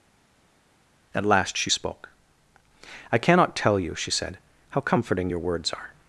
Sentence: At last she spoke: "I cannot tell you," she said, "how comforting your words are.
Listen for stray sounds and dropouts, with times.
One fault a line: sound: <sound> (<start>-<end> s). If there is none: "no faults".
no faults